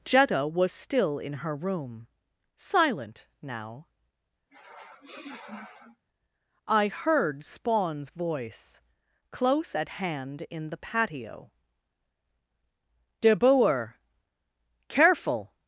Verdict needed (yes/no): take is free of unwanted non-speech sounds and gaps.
no